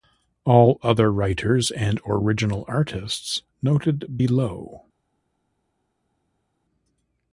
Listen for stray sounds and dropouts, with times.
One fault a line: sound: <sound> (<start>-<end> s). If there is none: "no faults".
no faults